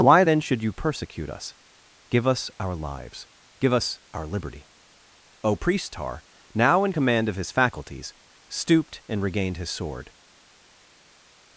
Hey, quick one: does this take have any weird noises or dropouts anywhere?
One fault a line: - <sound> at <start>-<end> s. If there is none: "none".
none